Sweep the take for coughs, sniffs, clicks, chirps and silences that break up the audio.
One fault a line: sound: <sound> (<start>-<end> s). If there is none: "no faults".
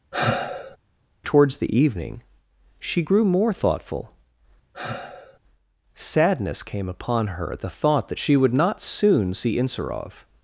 sound: sigh (0.1-0.8 s)
sound: sigh (4.7-5.4 s)